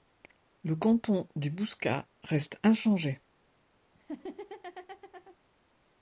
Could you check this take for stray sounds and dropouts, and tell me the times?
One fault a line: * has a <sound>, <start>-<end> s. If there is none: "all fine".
* has a laugh, 3.9-5.4 s